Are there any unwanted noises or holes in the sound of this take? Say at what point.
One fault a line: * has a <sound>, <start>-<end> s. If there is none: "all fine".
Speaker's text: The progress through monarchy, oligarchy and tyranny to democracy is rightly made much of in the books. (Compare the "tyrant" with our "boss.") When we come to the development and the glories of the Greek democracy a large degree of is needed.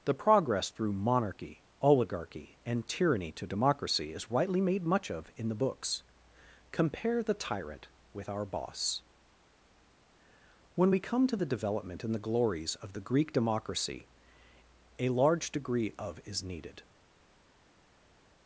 all fine